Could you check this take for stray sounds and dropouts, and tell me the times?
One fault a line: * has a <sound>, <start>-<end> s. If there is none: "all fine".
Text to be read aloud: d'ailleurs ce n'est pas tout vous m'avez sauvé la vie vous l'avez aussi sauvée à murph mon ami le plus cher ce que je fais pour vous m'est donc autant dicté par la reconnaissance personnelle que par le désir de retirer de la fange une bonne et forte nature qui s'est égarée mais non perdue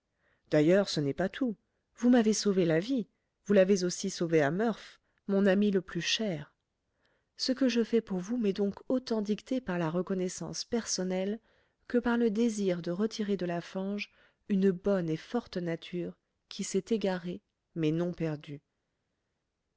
all fine